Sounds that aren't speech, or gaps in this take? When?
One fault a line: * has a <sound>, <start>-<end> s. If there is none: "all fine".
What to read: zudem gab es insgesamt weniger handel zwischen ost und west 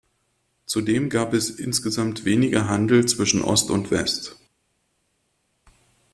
all fine